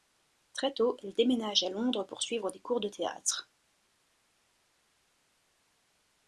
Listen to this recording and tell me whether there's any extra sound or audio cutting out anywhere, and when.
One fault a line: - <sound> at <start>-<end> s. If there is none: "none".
none